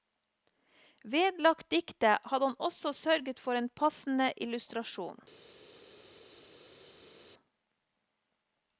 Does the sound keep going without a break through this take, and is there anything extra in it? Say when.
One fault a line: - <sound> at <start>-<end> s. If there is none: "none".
none